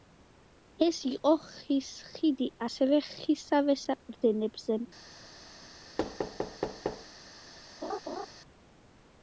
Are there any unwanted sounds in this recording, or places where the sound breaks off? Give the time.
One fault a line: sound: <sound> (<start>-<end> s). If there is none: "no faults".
sound: thud (6.0-7.1 s)
sound: laugh (7.8-8.3 s)